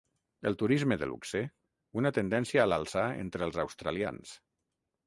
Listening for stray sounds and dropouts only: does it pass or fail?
pass